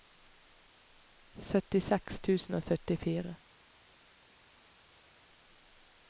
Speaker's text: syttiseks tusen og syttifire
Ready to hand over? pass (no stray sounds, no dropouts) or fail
pass